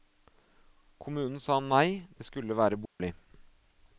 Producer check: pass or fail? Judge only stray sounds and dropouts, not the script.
fail